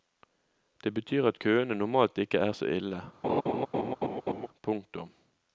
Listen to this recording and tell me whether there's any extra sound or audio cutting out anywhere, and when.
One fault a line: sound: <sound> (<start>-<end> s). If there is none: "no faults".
sound: laugh (3.2-4.5 s)